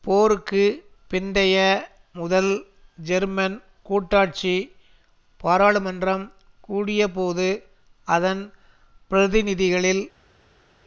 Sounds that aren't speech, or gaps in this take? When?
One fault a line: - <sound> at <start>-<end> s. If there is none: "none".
none